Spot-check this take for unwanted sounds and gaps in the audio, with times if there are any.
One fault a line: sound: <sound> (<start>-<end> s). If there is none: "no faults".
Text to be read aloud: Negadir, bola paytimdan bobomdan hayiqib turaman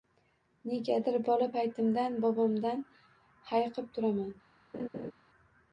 sound: laugh (4.7-5.1 s)